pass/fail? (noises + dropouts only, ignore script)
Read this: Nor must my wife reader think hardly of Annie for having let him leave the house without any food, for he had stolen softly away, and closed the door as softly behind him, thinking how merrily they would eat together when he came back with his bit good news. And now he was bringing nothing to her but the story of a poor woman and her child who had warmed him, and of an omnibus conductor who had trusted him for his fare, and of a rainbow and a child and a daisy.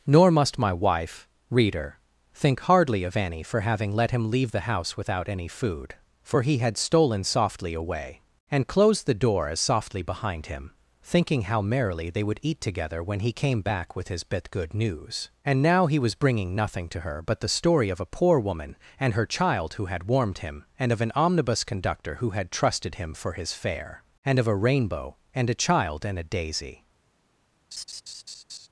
fail